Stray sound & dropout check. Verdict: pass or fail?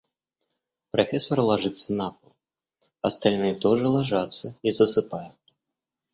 pass